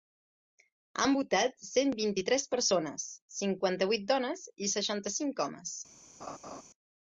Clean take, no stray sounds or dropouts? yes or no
no